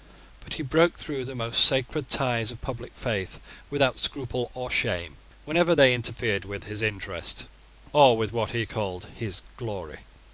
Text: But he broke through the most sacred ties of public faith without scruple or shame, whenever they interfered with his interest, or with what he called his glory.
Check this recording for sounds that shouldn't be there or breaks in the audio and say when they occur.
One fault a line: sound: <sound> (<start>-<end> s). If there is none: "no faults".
no faults